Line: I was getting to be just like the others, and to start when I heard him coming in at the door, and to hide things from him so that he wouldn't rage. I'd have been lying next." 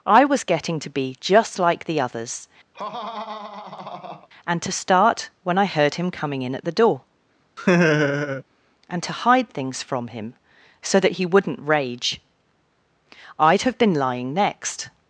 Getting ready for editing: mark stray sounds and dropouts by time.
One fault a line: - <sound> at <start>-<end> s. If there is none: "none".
- laugh at 2.7-4.3 s
- laugh at 7.6-8.4 s